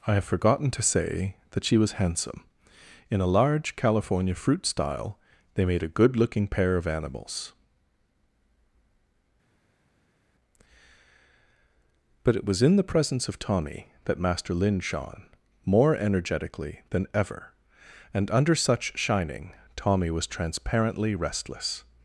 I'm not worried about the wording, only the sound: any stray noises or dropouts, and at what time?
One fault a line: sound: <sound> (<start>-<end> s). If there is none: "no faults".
no faults